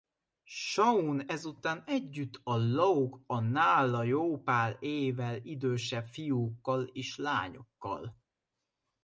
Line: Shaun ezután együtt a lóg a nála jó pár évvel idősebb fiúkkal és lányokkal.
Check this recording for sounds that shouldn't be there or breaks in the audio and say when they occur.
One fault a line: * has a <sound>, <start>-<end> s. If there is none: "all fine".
all fine